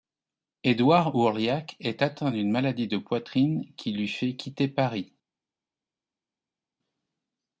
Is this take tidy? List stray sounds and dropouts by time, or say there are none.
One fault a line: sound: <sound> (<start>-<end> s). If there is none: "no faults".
no faults